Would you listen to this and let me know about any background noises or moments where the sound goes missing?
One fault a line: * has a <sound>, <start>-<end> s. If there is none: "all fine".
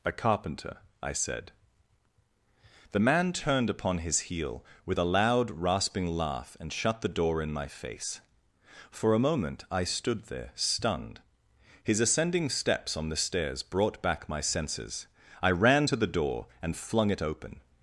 all fine